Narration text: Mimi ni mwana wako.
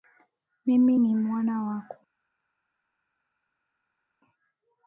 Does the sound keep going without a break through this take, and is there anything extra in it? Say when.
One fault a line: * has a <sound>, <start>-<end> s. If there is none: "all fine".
all fine